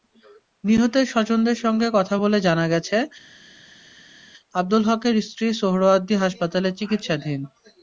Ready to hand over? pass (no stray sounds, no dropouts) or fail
pass